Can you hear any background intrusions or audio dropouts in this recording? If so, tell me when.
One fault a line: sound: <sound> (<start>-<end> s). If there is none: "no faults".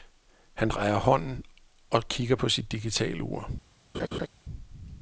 sound: laugh (3.9-4.3 s)